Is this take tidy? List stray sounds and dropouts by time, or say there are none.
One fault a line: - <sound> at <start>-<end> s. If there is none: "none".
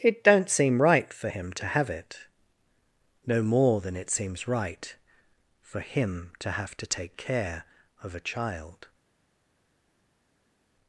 none